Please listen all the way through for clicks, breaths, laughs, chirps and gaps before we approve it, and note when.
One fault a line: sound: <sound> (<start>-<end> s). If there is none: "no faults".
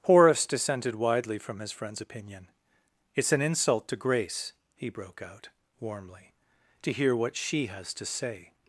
no faults